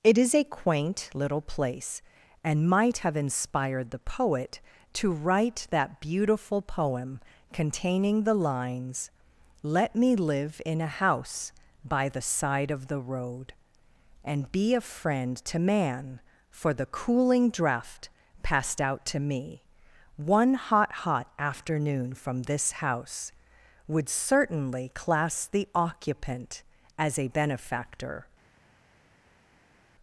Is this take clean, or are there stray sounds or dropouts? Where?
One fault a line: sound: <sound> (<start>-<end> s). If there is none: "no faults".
no faults